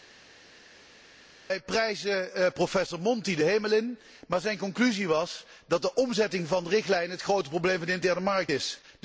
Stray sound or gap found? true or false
false